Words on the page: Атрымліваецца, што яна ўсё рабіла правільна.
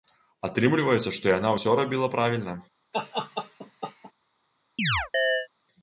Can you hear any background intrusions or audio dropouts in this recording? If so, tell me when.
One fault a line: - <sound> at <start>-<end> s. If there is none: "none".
- laugh at 2.9-4.1 s
- chirp at 4.8-5.5 s